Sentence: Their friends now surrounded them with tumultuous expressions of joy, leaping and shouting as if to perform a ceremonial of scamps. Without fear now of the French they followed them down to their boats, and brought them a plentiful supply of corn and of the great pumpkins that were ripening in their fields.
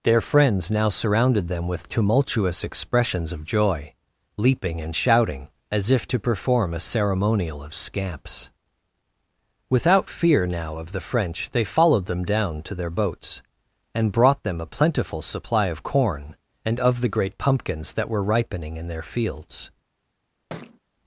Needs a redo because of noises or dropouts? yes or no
yes